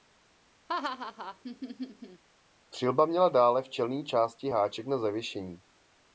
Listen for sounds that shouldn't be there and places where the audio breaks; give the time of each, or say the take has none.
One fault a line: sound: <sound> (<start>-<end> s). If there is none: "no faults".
sound: laugh (0.7-2.2 s)